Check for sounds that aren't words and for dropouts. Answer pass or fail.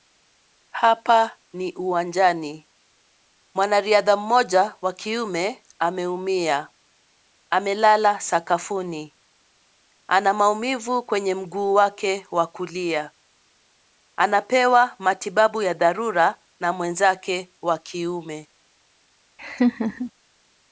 fail